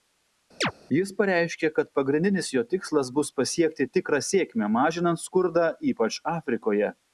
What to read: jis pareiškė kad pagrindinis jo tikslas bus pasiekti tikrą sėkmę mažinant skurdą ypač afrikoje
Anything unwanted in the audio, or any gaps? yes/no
yes